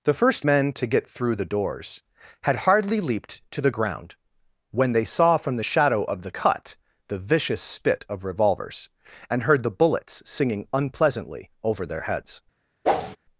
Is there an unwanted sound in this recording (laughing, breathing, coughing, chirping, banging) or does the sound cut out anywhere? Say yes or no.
yes